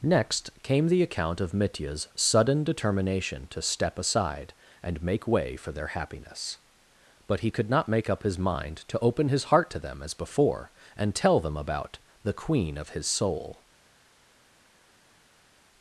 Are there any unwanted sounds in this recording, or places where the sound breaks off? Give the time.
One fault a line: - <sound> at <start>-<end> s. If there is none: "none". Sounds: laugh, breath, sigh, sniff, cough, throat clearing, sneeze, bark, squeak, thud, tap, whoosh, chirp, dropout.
none